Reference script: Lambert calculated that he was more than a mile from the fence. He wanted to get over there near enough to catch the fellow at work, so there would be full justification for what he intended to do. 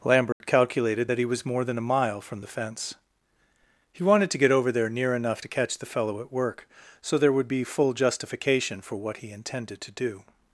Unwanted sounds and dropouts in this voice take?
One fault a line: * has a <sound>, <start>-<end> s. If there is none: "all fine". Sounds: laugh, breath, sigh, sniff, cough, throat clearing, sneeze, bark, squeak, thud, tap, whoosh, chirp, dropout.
* has a dropout, 0.3-0.4 s